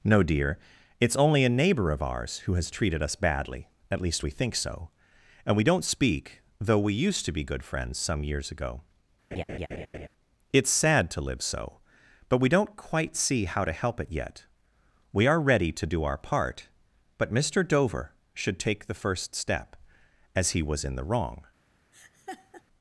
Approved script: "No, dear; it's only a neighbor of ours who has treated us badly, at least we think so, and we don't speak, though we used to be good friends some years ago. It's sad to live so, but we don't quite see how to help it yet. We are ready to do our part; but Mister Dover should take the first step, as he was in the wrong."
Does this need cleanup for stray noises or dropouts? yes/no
yes